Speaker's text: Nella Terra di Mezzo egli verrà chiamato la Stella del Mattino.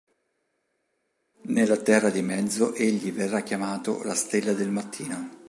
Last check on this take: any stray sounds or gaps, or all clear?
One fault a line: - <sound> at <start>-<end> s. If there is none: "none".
none